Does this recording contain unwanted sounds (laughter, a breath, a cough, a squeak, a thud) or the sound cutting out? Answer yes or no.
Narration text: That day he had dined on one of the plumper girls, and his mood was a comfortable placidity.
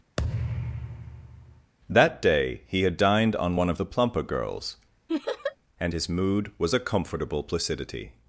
yes